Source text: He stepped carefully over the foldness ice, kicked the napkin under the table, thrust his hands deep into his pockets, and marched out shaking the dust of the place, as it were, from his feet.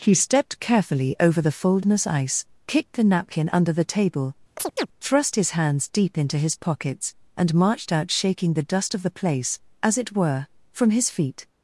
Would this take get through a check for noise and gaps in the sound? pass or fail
fail